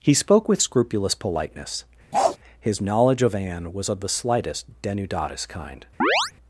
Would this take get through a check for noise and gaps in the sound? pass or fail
fail